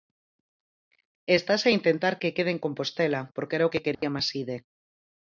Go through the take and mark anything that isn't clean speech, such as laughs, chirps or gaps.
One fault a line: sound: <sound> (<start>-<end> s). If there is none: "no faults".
sound: dropout (3.9-4.0 s)